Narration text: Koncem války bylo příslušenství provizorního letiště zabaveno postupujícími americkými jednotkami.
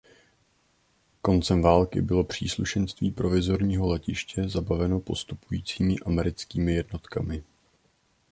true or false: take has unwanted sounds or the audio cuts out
false